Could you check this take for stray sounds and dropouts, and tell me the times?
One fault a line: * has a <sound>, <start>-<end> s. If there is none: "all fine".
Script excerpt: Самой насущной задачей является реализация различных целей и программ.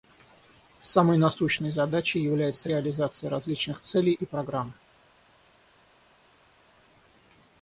all fine